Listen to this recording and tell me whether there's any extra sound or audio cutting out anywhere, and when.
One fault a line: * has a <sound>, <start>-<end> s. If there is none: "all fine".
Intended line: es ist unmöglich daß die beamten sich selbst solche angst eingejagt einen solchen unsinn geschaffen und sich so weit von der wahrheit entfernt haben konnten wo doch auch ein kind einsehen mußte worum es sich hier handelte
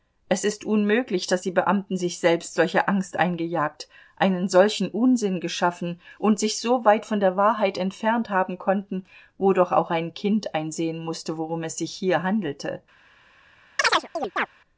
* has a chirp, 13.8-14.5 s